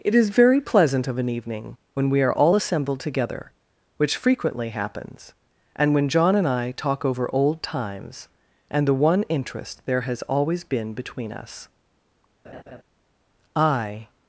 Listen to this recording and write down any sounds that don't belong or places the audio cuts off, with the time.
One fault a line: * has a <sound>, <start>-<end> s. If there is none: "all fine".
* has a laugh, 12.4-12.8 s